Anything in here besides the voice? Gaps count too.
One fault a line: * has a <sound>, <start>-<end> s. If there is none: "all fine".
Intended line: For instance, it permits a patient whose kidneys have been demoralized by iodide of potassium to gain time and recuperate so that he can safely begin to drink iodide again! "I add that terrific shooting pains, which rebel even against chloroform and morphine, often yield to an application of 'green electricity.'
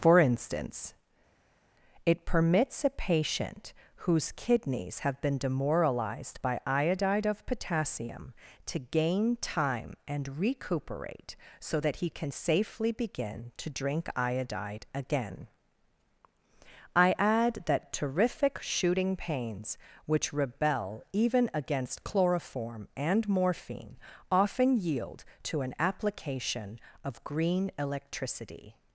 all fine